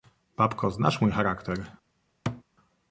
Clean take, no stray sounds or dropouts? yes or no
no